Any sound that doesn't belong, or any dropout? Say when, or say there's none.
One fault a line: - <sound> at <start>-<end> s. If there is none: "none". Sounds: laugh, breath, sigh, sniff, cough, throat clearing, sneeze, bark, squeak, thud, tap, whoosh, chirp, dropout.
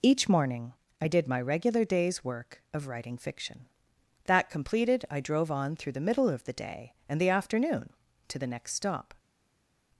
none